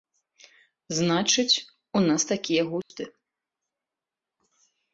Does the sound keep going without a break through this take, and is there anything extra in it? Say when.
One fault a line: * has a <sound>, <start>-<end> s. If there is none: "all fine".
* has a dropout, 2.8-2.9 s